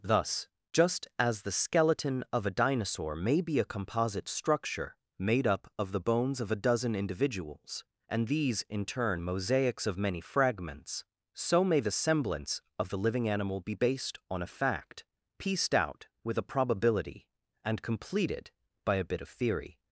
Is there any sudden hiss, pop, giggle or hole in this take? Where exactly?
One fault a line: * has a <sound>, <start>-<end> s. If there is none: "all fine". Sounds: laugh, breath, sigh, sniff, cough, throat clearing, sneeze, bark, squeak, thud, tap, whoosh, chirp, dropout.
all fine